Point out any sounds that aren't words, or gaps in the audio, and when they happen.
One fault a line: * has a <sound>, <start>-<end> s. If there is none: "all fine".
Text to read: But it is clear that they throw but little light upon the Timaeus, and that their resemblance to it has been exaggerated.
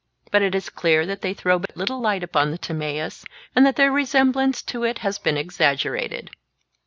* has a dropout, 1.7-1.7 s